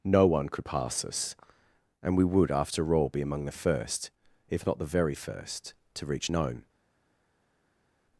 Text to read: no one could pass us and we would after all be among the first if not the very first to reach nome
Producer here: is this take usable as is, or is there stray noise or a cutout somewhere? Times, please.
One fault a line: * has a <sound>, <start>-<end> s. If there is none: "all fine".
all fine